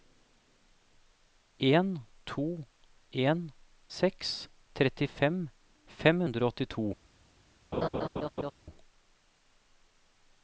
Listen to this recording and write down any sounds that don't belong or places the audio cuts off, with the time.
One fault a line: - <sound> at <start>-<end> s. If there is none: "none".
- laugh at 7.7-8.5 s